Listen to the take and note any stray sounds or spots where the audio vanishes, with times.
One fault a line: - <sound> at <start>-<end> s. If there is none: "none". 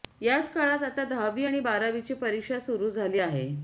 none